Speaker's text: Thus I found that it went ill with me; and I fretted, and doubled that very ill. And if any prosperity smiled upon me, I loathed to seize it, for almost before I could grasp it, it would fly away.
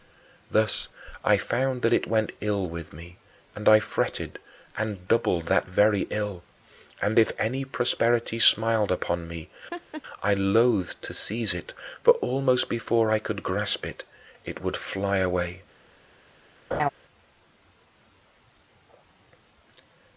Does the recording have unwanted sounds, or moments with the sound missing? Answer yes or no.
yes